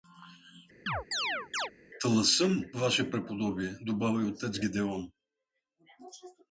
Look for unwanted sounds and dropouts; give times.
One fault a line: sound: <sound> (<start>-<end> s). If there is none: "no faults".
sound: chirp (0.9-1.7 s)